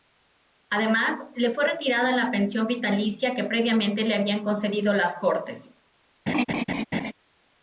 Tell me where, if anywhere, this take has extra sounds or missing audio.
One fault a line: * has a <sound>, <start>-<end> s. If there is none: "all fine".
* has a laugh, 6.3-7.1 s